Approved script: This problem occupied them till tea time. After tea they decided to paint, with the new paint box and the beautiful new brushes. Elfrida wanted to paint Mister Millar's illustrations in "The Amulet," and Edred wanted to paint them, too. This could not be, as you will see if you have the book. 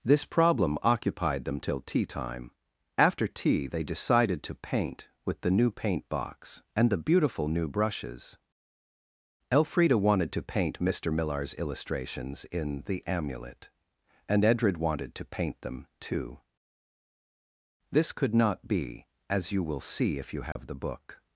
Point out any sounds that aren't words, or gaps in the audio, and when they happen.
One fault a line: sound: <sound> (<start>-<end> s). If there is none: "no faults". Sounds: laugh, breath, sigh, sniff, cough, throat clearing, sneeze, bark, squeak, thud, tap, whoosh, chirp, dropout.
sound: dropout (20.5-20.6 s)